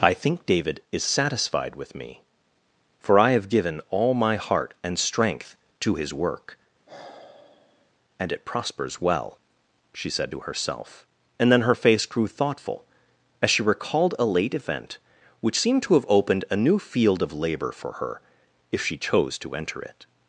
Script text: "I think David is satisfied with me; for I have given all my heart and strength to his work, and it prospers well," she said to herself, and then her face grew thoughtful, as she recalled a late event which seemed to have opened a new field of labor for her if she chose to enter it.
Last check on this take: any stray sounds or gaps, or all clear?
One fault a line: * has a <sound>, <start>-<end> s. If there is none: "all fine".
* has a sigh, 6.9-7.9 s